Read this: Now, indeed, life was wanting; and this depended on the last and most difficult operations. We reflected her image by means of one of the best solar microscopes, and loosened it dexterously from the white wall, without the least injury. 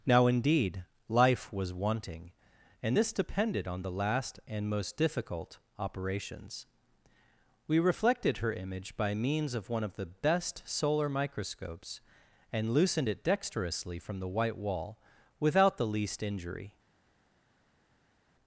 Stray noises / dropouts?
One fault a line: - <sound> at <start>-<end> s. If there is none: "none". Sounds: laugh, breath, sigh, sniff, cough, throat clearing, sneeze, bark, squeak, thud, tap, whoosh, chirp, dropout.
none